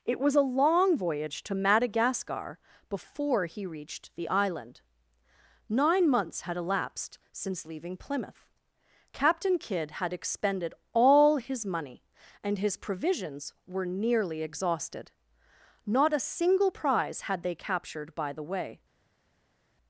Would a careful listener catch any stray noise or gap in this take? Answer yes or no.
no